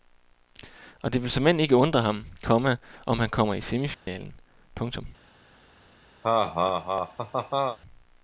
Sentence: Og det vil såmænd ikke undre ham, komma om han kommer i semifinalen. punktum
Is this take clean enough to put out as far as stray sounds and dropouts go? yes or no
no